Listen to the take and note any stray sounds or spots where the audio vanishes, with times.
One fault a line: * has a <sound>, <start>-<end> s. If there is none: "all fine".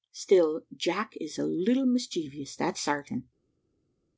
all fine